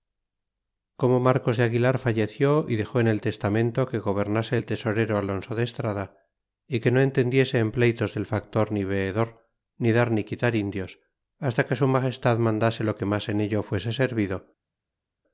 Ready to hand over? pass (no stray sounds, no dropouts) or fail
pass